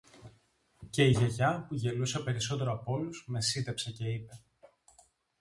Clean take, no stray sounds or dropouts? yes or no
yes